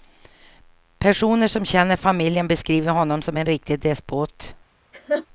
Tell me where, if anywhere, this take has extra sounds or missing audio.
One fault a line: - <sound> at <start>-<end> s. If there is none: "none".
- laugh at 4.9-5.3 s